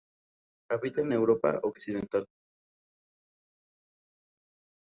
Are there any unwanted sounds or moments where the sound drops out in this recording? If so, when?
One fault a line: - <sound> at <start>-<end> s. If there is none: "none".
none